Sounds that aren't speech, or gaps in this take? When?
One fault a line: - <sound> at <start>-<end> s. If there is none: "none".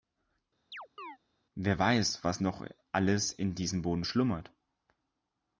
- chirp at 0.7-1.2 s